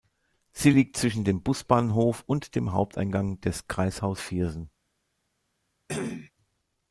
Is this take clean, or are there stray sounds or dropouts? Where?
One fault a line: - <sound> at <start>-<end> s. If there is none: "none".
- cough at 5.9-6.3 s